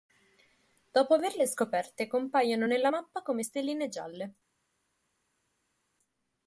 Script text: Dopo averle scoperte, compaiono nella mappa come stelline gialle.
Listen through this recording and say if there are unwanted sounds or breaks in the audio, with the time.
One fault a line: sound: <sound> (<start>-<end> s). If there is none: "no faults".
no faults